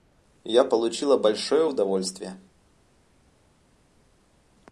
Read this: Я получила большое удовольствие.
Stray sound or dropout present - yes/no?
no